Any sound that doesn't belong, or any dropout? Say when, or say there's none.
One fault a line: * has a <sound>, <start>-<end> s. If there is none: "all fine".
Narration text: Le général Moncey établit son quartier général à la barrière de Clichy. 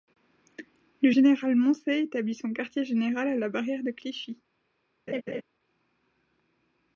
* has a laugh, 5.1-5.4 s